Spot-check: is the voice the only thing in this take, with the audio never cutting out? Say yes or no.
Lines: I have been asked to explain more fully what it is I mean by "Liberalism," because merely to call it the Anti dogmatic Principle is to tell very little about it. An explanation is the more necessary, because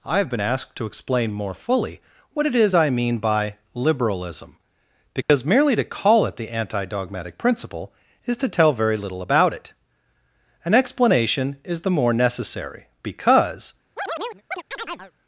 no